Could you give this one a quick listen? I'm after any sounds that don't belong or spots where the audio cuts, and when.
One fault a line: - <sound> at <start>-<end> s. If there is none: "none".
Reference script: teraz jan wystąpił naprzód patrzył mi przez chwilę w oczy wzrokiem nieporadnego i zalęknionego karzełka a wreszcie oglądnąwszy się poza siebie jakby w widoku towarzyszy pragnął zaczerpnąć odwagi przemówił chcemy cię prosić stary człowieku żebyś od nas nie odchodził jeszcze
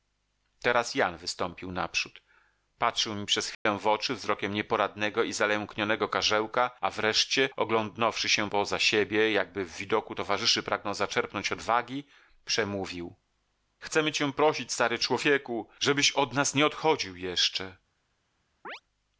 - dropout at 3.5-3.7 s
- chirp at 18.6-18.8 s